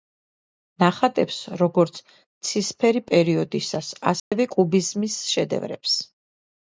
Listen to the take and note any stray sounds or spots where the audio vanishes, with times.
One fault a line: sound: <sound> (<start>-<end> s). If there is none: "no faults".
sound: dropout (4.2-4.3 s)